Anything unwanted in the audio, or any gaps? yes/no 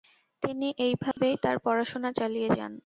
yes